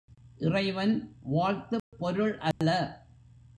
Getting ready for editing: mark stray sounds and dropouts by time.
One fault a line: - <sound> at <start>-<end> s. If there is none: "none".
- dropout at 1.8-1.9 s
- dropout at 2.5-2.6 s